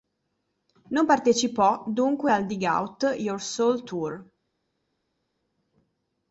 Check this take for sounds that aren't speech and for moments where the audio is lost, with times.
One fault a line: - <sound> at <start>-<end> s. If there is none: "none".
none